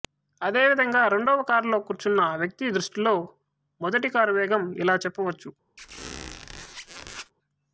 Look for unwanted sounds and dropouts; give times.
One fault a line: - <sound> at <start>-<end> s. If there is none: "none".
- squeak at 5.8-7.3 s